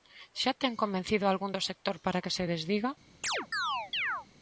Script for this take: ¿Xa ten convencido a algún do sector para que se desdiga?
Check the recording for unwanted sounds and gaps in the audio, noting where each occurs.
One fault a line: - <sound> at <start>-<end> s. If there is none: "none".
- chirp at 3.2-4.3 s